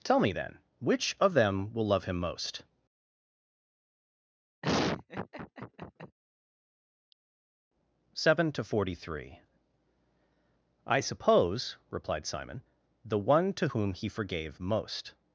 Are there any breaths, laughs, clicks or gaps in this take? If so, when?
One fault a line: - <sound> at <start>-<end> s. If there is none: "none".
- laugh at 4.6-6.2 s